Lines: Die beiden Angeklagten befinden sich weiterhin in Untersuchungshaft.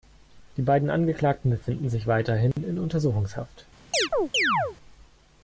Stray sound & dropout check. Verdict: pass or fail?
fail